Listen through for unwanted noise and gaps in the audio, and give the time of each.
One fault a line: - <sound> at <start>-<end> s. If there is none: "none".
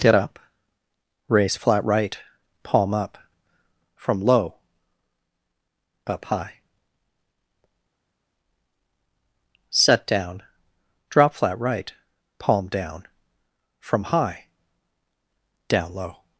none